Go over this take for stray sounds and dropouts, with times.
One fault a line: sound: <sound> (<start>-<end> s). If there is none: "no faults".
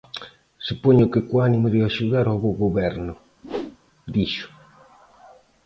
sound: whoosh (3.4-3.8 s)